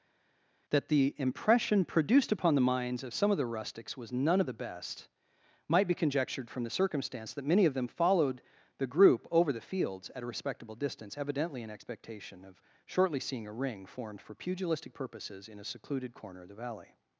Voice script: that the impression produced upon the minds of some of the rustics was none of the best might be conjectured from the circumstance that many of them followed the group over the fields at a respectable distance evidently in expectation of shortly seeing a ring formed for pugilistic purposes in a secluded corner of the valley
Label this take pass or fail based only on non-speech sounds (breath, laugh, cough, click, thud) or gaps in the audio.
pass